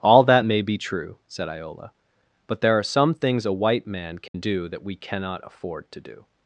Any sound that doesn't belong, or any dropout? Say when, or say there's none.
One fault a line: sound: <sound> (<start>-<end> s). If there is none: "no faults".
sound: dropout (4.3-4.3 s)